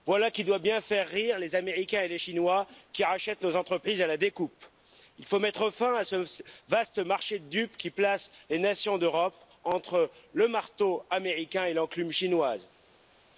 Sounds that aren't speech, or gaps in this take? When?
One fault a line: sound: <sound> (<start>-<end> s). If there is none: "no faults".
no faults